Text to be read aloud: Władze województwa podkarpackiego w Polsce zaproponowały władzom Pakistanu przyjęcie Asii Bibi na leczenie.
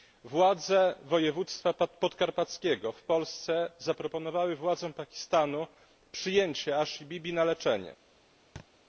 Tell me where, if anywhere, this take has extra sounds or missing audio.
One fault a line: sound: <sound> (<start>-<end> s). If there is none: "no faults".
sound: thud (8.6-8.7 s)